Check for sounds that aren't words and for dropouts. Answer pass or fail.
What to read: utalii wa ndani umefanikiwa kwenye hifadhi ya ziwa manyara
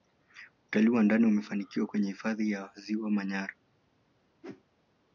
fail